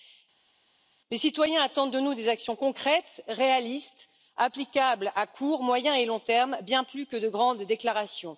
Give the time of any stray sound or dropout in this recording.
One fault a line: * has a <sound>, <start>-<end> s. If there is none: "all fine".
all fine